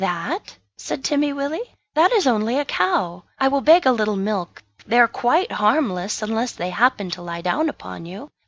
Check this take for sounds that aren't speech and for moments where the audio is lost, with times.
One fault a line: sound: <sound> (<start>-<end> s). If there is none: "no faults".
no faults